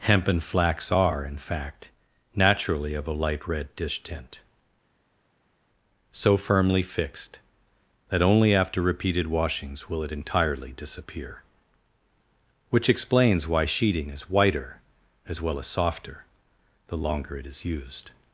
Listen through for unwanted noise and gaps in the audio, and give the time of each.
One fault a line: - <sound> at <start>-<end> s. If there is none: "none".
none